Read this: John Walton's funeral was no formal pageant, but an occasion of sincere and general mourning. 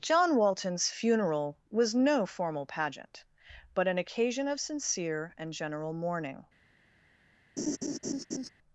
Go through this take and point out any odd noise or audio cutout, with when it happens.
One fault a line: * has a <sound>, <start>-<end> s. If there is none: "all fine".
* has a laugh, 7.6-8.5 s